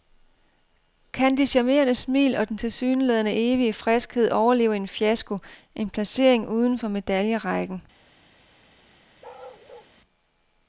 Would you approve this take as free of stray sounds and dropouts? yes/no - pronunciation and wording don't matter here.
no